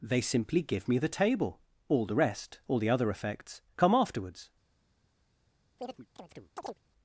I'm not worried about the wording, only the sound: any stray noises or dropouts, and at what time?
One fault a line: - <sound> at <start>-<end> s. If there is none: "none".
- chirp at 5.8-6.8 s